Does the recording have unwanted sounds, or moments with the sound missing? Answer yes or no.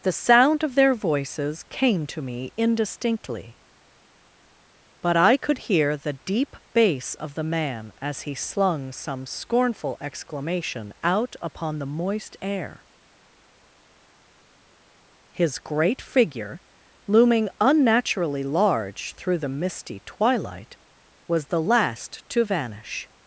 no